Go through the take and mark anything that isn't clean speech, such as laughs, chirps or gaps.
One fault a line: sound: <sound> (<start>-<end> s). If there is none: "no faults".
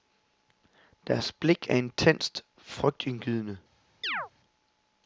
sound: chirp (4.0-4.3 s)